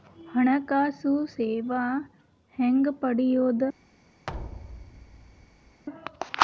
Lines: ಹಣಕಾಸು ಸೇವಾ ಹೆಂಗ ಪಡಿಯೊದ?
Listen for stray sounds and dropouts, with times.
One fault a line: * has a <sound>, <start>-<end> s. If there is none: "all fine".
* has a thud, 4.3-5.8 s